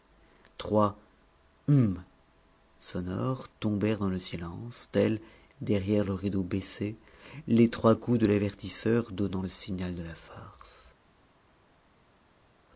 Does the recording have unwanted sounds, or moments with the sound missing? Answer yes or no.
no